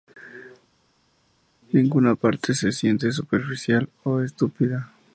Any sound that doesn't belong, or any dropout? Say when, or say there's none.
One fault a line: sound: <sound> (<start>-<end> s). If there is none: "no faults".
no faults